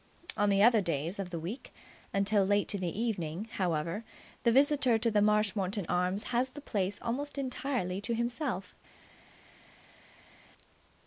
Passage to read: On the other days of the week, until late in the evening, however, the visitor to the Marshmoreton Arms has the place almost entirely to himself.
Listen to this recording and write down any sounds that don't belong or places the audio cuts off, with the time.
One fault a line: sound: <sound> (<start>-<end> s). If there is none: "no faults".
no faults